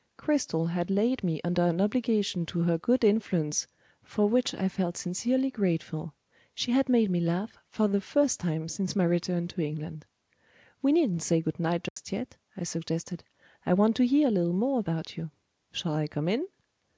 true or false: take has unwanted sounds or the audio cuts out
true